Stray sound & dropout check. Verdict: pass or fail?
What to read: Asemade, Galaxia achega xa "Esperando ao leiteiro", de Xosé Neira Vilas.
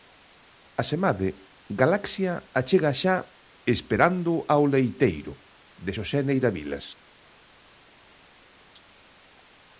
pass